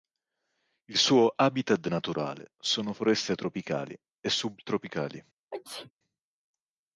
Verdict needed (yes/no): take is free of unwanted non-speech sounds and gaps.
no